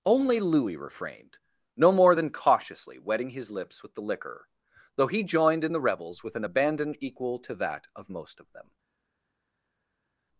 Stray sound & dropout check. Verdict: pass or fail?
pass